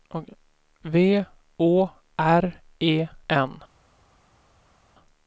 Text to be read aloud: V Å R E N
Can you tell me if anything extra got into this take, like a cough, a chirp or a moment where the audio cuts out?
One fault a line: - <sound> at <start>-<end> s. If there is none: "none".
none